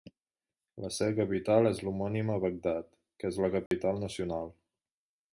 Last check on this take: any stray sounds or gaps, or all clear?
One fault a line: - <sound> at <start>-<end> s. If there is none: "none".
- dropout at 3.7-3.7 s